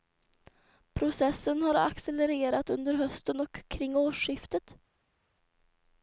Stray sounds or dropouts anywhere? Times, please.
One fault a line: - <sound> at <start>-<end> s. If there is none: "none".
none